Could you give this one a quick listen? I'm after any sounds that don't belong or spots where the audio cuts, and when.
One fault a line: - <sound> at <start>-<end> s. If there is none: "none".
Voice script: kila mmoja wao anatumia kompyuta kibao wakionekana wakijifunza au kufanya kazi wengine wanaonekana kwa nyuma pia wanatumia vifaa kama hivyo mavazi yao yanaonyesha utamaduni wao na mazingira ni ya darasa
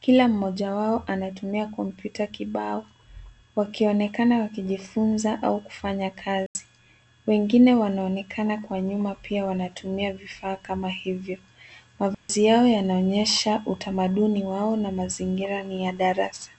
- dropout at 6.5-6.5 s
- dropout at 12.1-12.3 s